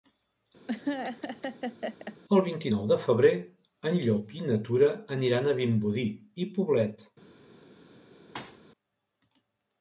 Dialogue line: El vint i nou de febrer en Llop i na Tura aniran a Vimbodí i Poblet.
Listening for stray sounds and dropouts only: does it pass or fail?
fail